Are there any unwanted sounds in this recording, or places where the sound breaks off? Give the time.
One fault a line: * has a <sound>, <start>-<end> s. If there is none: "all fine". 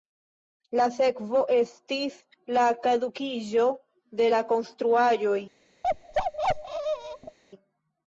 * has a bark, 5.8-7.4 s